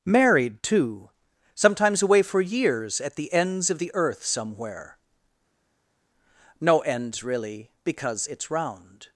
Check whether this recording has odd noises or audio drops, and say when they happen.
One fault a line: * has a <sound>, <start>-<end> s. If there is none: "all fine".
all fine